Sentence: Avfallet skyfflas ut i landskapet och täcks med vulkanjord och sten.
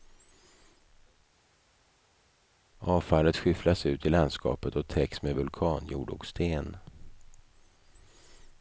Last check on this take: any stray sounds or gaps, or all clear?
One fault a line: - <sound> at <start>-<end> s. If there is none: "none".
none